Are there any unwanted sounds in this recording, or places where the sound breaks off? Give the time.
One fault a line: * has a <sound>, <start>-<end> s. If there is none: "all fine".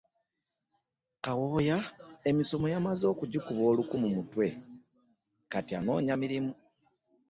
all fine